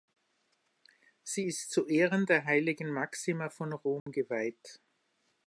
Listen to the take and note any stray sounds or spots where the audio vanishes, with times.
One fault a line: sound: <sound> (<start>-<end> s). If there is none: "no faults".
sound: dropout (4.0-4.1 s)